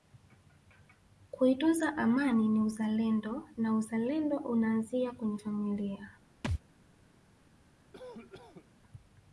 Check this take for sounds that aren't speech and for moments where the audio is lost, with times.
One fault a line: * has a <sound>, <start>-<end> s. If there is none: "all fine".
* has a thud, 6.4-6.6 s
* has a cough, 7.9-8.7 s